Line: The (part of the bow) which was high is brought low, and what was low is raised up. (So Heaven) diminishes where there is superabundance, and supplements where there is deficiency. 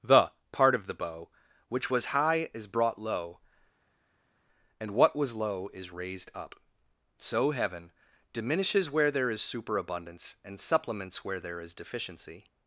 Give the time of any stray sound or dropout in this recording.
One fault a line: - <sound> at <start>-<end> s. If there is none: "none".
none